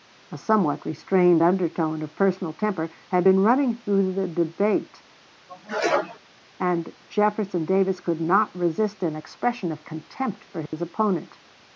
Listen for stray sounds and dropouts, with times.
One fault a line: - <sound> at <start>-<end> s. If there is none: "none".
- sneeze at 5.5-6.2 s
- dropout at 10.7-10.7 s